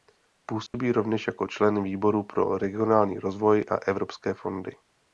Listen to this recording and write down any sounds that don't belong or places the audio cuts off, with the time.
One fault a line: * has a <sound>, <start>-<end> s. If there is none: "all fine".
* has a dropout, 0.7-0.7 s